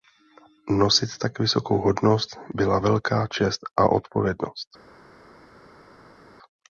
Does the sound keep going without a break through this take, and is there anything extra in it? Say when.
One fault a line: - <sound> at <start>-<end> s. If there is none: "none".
none